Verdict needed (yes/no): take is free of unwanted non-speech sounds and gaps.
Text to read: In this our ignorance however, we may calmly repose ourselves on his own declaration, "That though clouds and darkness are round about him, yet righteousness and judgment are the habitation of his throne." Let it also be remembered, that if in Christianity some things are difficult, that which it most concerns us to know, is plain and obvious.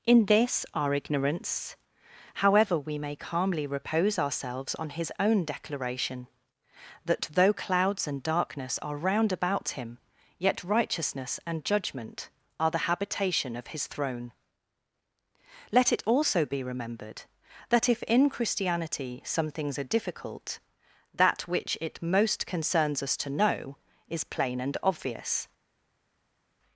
yes